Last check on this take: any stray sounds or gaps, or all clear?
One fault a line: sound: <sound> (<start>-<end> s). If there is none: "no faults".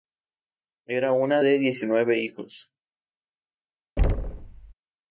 sound: thud (4.0-4.7 s)